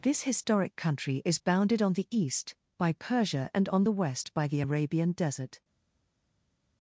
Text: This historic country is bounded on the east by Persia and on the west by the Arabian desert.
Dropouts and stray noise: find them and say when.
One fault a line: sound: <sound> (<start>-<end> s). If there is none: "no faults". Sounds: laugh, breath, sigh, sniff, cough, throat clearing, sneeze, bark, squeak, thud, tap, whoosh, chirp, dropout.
no faults